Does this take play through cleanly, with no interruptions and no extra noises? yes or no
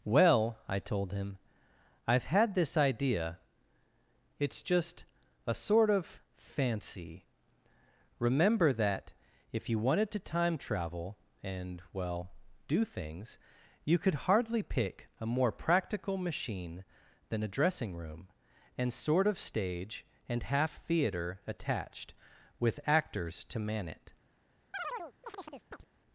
no